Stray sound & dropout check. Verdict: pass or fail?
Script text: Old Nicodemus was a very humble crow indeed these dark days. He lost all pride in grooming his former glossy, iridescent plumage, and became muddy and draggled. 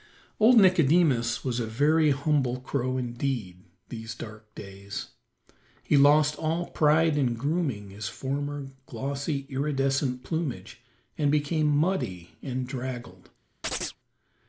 fail